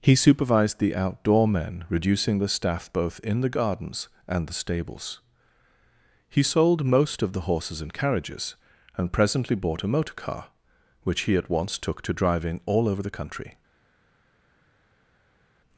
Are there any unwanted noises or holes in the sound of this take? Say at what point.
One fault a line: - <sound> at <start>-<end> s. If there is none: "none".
none